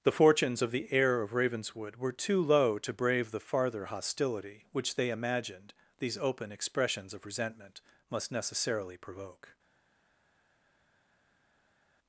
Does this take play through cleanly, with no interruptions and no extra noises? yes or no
yes